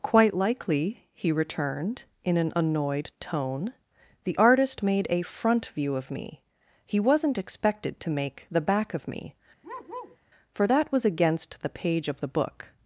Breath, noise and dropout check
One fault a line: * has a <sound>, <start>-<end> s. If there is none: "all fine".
* has a bark, 9.6-10.2 s